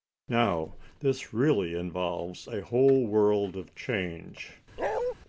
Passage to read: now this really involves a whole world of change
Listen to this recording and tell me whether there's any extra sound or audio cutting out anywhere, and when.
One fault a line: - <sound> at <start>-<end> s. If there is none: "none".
- bark at 4.8-5.1 s